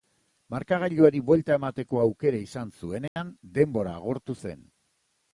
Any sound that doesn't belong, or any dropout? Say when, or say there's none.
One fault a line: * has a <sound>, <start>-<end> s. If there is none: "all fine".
* has a dropout, 3.1-3.2 s